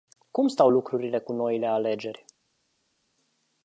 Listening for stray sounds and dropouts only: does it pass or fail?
pass